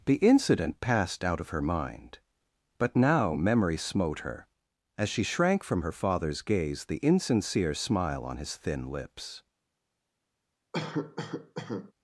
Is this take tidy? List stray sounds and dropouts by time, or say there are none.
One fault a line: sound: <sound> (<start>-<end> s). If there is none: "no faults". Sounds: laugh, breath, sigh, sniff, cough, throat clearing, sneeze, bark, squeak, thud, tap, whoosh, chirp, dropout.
sound: cough (10.7-11.9 s)